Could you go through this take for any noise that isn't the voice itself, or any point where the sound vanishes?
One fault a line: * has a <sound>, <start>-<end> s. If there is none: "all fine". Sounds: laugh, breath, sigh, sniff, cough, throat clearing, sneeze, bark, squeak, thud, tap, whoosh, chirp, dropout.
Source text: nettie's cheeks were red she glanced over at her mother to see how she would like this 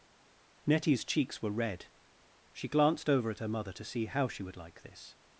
all fine